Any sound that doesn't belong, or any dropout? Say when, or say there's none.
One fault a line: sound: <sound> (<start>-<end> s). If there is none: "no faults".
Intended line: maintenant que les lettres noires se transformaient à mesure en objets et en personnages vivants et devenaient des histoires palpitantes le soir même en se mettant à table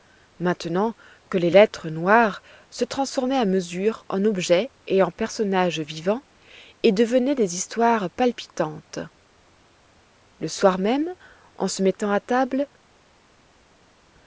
no faults